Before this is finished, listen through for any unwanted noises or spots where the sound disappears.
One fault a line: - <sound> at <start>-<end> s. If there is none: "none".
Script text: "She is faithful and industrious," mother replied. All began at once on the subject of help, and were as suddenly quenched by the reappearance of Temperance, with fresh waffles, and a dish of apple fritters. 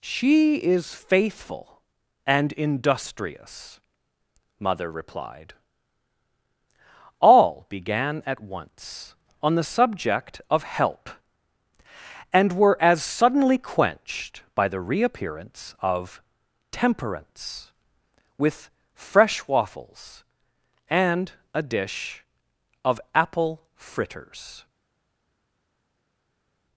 none